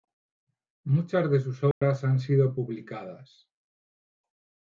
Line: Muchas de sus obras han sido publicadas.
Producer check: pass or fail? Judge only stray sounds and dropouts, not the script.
fail